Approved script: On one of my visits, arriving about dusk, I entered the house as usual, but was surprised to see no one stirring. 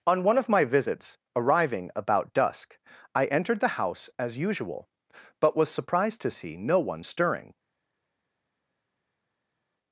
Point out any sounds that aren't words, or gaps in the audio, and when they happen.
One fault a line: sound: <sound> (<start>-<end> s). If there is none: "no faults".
no faults